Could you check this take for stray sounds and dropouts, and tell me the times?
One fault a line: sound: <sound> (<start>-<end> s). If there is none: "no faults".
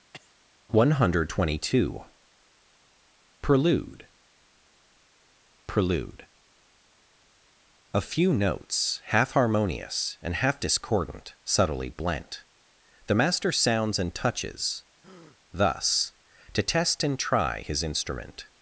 sound: cough (0.1-0.3 s)
sound: breath (15.0-15.4 s)